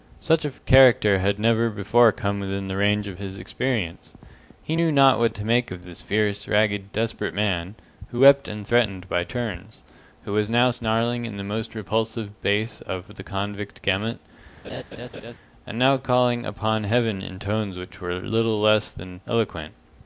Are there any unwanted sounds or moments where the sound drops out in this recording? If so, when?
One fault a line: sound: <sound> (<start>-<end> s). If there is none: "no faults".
sound: laugh (14.6-15.3 s)